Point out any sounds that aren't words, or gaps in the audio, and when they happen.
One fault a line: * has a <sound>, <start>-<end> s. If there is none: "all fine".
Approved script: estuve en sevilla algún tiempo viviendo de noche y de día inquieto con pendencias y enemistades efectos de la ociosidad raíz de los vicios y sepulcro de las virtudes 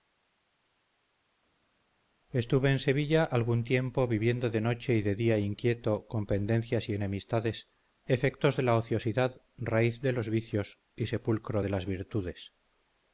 all fine